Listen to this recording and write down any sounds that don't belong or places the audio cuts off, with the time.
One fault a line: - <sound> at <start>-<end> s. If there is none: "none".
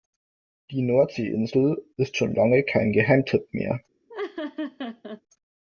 - laugh at 4.1-5.2 s